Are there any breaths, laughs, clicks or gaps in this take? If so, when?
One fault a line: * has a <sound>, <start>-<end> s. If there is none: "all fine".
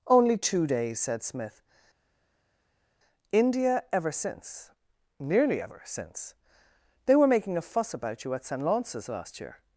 all fine